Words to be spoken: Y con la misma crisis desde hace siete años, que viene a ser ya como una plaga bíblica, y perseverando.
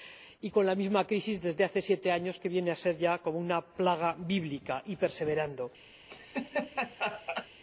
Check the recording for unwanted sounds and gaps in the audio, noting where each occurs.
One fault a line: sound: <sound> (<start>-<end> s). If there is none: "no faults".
sound: laugh (6.1-7.5 s)